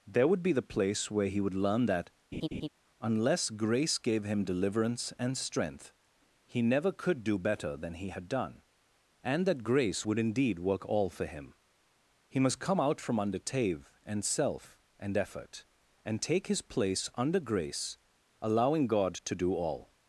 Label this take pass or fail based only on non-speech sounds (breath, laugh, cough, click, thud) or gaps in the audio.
fail